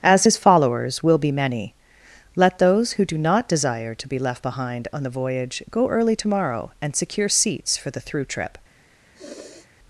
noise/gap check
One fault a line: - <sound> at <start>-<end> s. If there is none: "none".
- sniff at 9.1-9.7 s